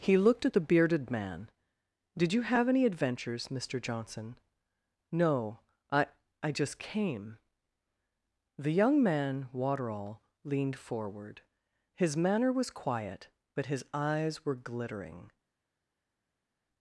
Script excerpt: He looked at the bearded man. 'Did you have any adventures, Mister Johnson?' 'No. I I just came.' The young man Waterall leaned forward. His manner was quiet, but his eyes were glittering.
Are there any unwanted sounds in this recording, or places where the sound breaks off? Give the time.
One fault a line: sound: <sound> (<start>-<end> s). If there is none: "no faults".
no faults